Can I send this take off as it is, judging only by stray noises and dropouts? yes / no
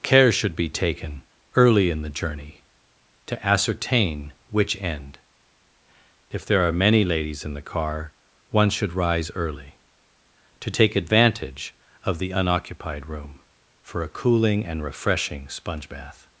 yes